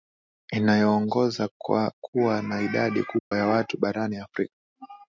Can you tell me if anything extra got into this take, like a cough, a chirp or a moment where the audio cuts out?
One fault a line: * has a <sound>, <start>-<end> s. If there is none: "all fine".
* has a dropout, 3.2-3.3 s